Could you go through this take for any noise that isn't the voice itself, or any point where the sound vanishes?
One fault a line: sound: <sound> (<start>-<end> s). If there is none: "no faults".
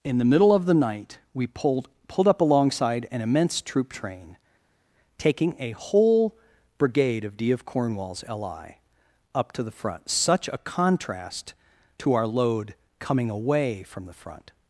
no faults